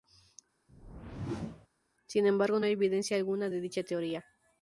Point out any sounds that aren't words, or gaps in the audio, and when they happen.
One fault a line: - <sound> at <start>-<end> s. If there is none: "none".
- whoosh at 0.7-1.7 s